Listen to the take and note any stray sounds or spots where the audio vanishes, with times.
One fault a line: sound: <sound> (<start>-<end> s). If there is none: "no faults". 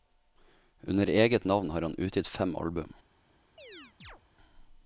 sound: chirp (3.6-4.2 s)